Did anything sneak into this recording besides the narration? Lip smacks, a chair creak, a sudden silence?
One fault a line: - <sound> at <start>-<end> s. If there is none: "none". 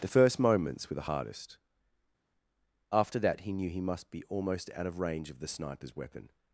none